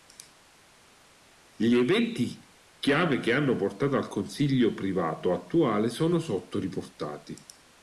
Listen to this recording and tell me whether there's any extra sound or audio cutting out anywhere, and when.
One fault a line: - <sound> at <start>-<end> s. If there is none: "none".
none